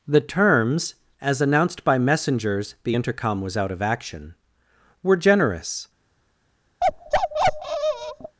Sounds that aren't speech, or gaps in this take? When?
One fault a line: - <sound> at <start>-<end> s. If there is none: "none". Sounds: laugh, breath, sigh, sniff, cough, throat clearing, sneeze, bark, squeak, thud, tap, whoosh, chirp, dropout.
- bark at 6.8-8.4 s